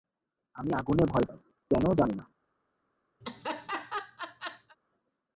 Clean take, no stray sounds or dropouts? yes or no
no